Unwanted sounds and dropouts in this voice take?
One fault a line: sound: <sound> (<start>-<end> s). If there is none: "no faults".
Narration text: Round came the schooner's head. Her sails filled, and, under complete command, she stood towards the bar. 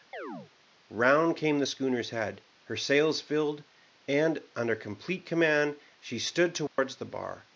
sound: chirp (0.1-0.5 s)
sound: dropout (6.7-6.8 s)